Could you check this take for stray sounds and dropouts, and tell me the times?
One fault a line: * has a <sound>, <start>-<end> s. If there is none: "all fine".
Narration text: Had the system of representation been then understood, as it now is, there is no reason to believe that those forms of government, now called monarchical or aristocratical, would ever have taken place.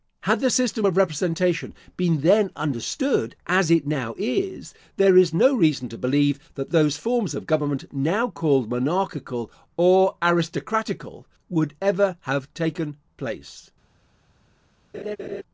* has a laugh, 14.9-15.4 s